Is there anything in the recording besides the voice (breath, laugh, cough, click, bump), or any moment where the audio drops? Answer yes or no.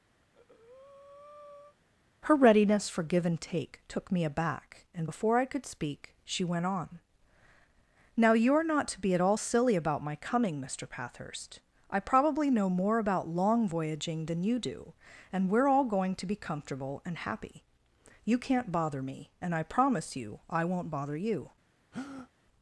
yes